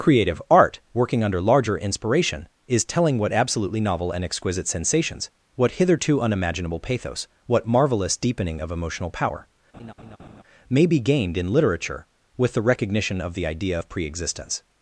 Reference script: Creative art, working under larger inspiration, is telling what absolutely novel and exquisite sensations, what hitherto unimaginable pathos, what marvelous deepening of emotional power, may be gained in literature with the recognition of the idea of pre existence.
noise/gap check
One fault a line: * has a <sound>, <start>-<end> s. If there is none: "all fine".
* has a laugh, 9.7-10.4 s